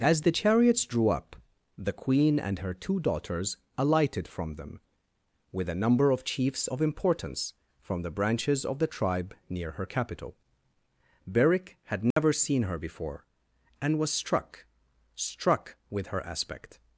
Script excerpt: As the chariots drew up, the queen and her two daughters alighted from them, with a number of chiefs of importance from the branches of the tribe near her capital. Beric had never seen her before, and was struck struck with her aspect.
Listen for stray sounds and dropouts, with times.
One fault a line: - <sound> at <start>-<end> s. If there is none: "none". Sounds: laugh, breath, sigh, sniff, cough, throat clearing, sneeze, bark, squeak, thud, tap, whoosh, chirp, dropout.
- dropout at 12.1-12.2 s